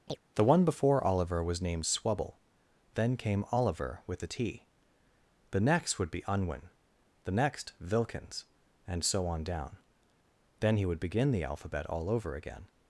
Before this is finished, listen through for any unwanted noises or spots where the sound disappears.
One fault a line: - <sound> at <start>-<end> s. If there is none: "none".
- chirp at 0.1-0.2 s